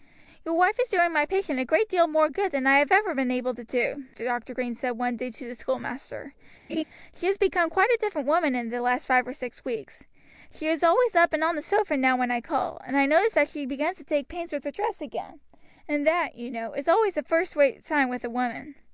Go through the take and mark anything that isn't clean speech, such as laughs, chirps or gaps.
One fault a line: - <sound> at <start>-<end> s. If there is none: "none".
- laugh at 6.7-6.8 s